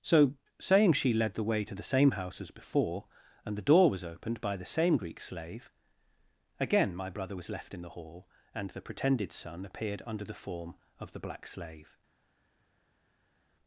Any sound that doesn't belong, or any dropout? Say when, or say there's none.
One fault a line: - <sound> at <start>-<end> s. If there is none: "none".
none